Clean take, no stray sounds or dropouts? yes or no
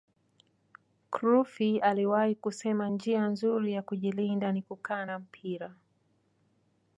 yes